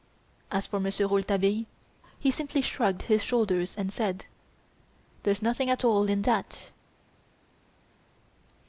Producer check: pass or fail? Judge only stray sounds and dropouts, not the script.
pass